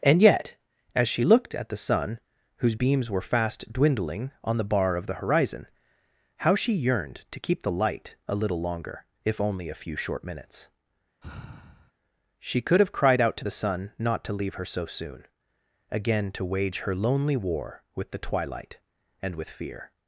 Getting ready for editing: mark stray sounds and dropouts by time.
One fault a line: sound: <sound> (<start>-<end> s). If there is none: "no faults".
sound: sigh (11.2-11.9 s)